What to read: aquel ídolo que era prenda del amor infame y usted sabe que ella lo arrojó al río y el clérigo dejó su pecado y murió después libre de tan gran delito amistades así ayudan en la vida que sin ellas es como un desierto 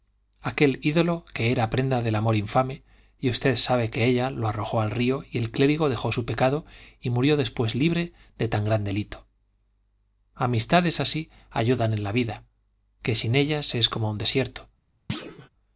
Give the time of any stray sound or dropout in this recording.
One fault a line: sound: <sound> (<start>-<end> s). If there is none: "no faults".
sound: thud (15.1-15.5 s)